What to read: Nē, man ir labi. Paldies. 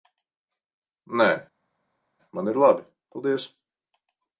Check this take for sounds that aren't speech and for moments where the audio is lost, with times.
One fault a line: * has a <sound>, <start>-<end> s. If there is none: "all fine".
all fine